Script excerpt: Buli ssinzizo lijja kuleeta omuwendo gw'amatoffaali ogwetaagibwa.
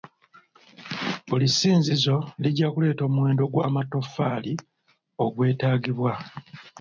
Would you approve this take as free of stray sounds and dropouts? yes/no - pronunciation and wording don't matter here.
yes